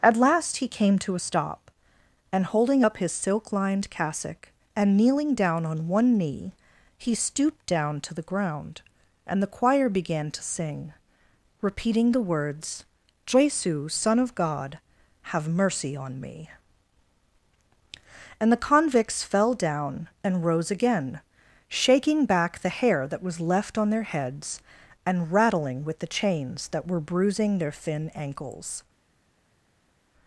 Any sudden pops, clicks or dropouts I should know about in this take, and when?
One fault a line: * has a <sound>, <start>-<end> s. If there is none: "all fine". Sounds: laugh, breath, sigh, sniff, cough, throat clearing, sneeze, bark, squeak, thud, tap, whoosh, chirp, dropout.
all fine